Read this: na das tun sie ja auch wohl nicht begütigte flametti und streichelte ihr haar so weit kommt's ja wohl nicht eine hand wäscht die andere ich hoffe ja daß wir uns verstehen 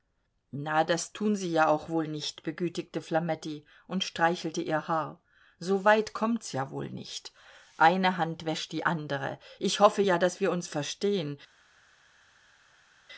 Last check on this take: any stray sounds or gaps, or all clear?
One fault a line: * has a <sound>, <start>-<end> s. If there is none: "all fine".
all fine